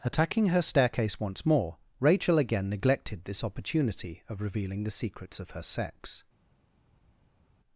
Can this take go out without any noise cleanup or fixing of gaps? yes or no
yes